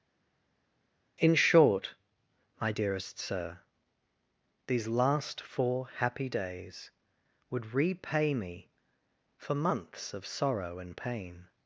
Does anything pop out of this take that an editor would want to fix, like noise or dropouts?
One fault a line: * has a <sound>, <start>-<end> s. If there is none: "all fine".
all fine